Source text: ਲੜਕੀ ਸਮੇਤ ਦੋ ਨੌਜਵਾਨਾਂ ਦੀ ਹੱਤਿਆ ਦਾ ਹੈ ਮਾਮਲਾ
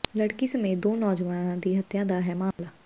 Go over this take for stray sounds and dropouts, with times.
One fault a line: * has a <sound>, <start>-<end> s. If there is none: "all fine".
* has a dropout, 2.5-2.6 s